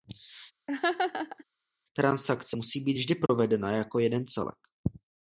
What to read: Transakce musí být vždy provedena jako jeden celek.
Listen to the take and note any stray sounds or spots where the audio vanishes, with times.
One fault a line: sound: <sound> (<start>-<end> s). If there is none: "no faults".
sound: laugh (0.7-1.4 s)
sound: dropout (3.3-3.3 s)